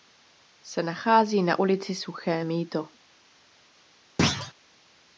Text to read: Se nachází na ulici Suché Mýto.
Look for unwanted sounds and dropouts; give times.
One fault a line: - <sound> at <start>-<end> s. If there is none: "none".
- thud at 4.2-4.5 s